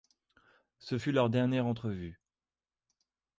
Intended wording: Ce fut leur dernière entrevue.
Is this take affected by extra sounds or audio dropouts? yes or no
no